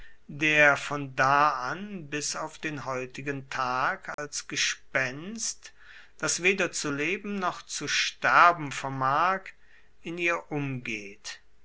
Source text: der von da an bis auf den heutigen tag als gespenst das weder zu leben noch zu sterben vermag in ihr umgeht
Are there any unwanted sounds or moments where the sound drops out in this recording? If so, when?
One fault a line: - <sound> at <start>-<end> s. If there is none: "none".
- dropout at 4.1-4.2 s